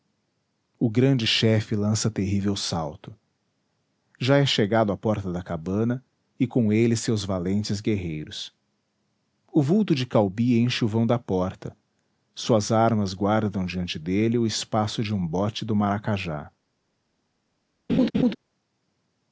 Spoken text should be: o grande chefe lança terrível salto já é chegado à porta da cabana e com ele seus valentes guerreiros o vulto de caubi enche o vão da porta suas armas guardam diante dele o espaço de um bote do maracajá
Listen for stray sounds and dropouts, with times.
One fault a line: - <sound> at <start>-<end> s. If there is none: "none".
- laugh at 17.9-18.4 s